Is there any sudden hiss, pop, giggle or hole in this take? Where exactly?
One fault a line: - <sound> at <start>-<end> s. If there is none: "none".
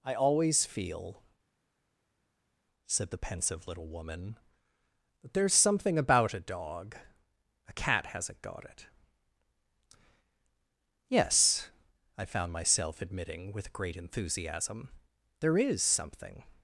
none